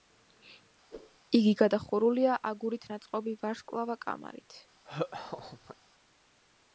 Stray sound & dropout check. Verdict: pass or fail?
fail